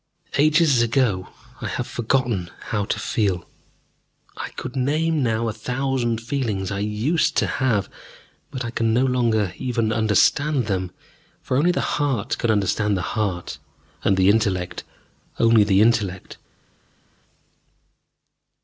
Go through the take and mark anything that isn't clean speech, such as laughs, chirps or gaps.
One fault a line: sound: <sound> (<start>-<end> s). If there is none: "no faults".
no faults